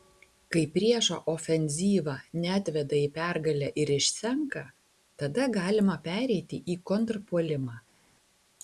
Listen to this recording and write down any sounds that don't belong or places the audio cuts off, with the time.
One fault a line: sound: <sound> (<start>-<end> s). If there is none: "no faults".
no faults